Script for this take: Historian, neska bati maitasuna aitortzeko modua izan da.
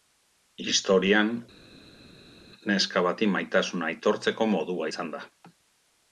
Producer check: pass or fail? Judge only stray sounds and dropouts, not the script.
pass